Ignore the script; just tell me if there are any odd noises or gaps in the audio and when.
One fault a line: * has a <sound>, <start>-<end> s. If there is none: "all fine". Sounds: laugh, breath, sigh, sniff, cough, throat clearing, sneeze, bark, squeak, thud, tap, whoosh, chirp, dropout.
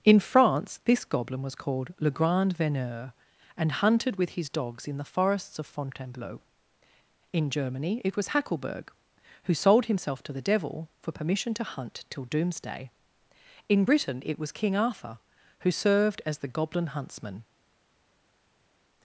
all fine